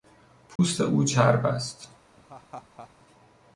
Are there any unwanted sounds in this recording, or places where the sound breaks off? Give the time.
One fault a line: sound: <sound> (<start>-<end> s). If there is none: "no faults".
sound: dropout (0.6-0.6 s)
sound: laugh (2.2-2.9 s)